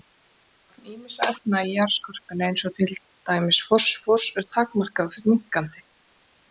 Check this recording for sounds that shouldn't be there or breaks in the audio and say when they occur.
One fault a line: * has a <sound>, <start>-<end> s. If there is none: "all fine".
all fine